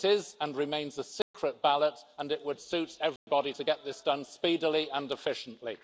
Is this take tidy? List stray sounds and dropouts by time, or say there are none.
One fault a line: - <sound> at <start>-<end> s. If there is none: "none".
- dropout at 1.2-1.3 s
- dropout at 3.2-3.3 s